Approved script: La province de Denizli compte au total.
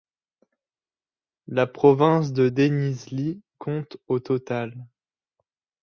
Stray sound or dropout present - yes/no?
no